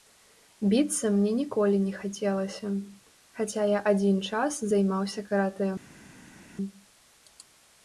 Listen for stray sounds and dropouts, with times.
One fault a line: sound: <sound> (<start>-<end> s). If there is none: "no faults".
no faults